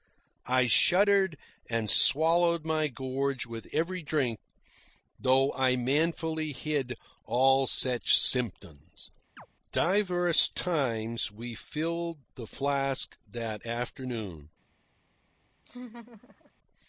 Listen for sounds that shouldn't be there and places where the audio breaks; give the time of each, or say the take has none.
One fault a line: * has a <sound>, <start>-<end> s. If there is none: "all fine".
* has a chirp, 9.4-9.5 s
* has a laugh, 15.7-16.5 s